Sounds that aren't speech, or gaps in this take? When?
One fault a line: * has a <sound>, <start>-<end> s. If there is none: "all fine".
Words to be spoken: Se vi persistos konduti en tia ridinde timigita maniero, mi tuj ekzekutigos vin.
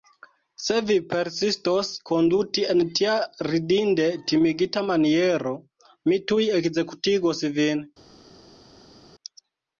all fine